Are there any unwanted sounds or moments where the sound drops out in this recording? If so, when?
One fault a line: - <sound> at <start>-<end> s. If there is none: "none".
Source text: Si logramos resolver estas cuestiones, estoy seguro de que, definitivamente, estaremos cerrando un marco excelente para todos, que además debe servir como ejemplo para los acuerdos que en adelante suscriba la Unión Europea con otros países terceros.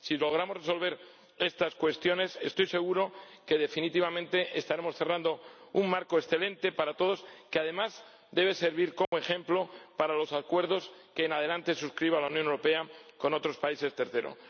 - dropout at 9.1-9.1 s